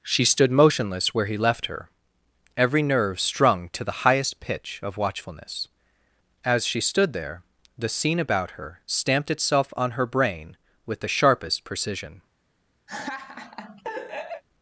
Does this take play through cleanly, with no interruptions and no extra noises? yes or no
no